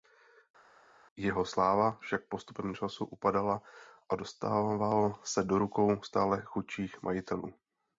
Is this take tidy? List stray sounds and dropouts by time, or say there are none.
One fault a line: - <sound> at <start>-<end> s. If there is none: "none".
none